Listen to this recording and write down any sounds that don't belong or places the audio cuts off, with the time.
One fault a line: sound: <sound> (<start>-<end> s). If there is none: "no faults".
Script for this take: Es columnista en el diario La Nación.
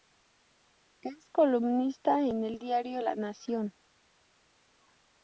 no faults